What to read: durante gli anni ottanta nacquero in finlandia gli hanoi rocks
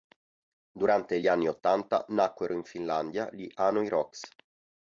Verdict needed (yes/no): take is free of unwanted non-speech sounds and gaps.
yes